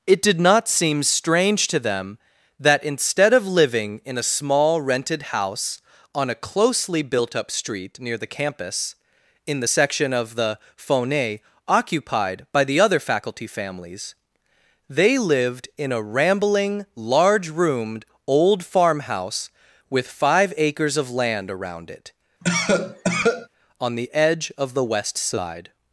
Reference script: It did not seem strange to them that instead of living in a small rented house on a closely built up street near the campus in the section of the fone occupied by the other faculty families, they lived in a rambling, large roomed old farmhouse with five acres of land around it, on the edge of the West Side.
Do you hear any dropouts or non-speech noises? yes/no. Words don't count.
yes